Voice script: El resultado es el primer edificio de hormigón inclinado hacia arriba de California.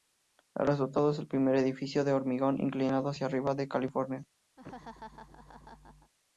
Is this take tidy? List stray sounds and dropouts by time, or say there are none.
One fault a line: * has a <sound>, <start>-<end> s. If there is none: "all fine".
* has a laugh, 4.6-6.1 s